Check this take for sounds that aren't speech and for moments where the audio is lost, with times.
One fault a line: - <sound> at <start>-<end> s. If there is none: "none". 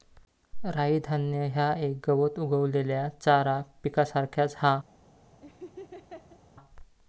- laugh at 5.4-6.4 s